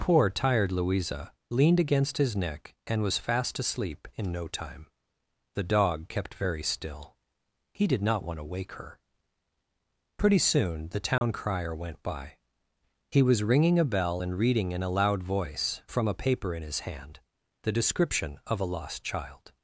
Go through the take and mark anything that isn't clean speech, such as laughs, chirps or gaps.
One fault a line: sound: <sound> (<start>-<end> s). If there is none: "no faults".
sound: dropout (11.2-11.2 s)